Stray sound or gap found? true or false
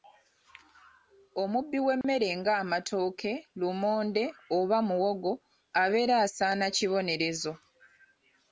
true